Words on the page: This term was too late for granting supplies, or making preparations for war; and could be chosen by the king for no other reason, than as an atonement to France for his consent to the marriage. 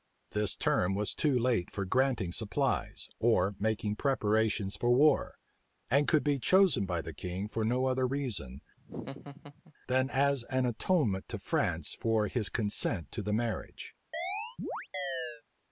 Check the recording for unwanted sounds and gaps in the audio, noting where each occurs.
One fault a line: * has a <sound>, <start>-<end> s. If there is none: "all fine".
* has a laugh, 8.8-9.7 s
* has a chirp, 14.1-15.4 s